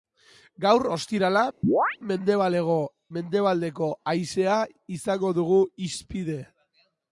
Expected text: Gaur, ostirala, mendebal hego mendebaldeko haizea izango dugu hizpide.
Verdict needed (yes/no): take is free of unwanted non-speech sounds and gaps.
no